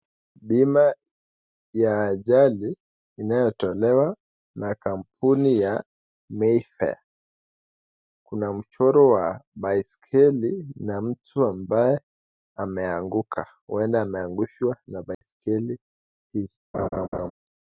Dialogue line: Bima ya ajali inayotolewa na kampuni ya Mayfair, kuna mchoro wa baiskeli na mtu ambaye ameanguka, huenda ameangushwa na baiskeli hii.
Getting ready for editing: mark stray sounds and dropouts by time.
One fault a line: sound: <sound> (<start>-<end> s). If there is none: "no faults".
sound: dropout (15.1-15.2 s)
sound: laugh (16.7-17.3 s)